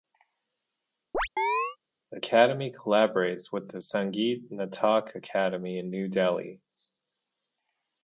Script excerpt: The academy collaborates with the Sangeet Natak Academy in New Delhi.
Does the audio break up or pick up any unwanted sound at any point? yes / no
yes